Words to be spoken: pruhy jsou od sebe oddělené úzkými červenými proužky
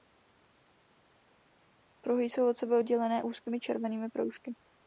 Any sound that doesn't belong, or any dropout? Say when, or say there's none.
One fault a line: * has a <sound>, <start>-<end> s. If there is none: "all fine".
all fine